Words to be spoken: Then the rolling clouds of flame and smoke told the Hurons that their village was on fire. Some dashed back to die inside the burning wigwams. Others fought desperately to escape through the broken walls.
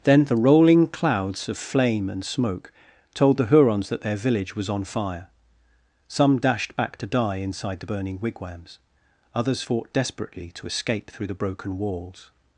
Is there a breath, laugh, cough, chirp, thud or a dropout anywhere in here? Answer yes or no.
no